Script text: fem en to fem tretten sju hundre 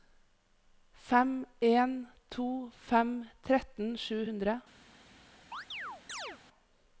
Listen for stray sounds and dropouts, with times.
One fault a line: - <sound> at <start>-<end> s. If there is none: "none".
- chirp at 5.5-6.4 s